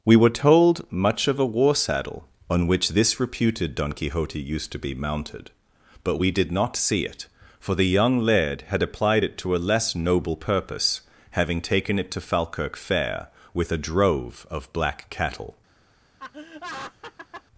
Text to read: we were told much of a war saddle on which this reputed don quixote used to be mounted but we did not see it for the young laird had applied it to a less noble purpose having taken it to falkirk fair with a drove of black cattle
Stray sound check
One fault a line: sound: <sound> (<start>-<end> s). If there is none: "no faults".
sound: laugh (16.2-17.4 s)